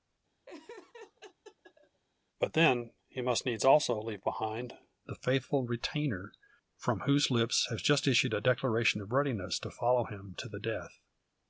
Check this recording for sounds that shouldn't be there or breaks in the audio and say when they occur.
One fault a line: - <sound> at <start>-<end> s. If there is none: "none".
- laugh at 0.5-2.0 s